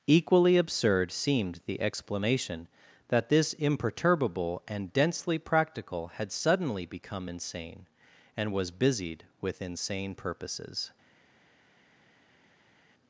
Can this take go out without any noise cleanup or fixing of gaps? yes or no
yes